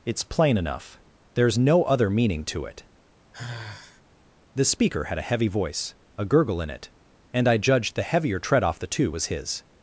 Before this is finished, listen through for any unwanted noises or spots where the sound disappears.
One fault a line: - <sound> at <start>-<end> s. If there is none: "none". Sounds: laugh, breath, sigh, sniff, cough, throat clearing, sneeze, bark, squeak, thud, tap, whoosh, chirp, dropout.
- sigh at 3.3-4.0 s